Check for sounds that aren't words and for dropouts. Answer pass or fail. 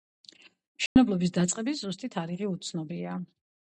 fail